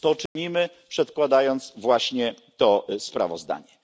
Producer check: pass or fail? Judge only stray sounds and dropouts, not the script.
fail